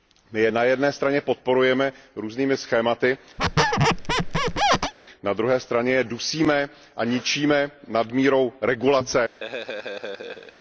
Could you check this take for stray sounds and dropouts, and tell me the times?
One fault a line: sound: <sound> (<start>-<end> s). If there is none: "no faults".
sound: squeak (3.4-4.9 s)
sound: laugh (9.4-10.5 s)